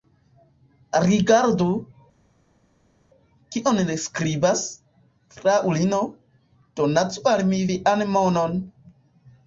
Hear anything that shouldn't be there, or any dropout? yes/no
no